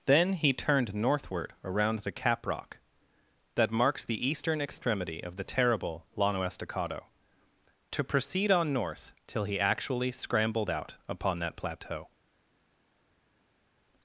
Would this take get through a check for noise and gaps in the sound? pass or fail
pass